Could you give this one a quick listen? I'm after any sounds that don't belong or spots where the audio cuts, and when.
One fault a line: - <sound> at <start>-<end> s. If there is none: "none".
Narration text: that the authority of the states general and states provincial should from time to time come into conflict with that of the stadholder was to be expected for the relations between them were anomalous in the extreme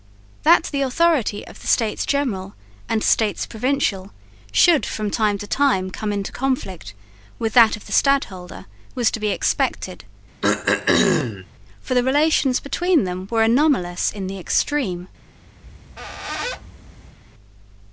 - throat clearing at 10.4-11.5 s
- squeak at 15.6-17.2 s